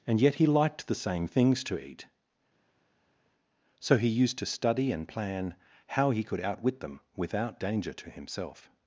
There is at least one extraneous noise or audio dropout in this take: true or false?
false